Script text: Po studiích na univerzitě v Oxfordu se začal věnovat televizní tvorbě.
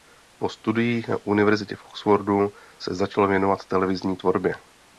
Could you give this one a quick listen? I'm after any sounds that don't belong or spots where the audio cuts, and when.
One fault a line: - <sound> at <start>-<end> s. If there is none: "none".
none